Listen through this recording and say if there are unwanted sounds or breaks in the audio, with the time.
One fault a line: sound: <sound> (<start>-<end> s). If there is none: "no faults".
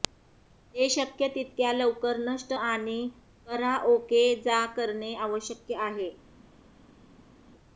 no faults